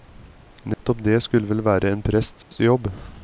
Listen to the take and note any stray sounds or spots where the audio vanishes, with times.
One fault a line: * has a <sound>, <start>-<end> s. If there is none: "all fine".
* has a dropout, 0.7-0.8 s
* has a dropout, 2.4-2.5 s